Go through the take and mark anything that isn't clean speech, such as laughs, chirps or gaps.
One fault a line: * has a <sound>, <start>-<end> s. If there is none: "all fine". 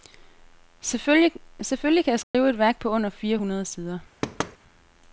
* has a dropout, 2.2-2.3 s
* has a thud, 4.2-4.6 s